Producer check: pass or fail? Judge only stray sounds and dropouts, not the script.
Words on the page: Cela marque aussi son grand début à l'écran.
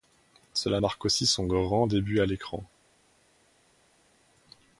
pass